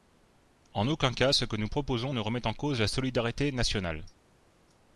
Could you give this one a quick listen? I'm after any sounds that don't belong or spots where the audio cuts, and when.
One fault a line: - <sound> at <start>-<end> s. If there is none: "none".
none